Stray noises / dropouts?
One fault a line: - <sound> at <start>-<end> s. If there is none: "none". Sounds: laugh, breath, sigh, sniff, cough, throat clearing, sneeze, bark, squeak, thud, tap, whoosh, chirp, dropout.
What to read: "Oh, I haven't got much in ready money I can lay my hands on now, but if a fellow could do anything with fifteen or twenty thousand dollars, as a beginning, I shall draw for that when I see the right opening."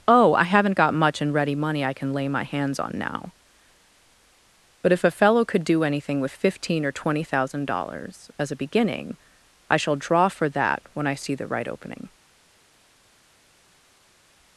none